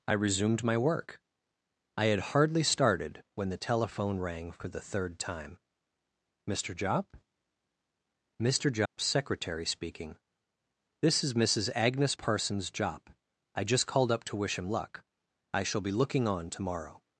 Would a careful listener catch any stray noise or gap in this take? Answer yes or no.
yes